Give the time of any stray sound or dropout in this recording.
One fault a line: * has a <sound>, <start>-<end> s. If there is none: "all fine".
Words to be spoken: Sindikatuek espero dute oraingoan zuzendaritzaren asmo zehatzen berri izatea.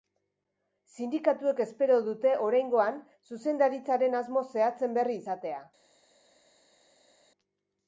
all fine